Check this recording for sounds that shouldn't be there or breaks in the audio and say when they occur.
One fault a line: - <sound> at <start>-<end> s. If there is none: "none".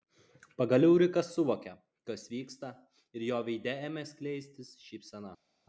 none